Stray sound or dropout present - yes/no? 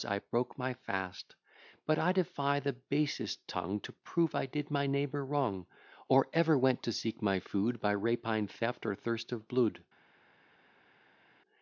no